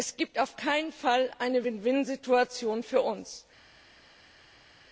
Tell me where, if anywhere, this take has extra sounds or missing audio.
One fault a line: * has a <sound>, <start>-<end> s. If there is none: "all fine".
all fine